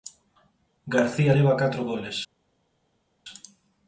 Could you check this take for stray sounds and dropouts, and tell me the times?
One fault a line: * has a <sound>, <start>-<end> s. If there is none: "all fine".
all fine